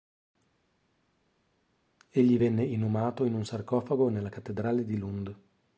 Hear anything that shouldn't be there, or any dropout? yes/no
no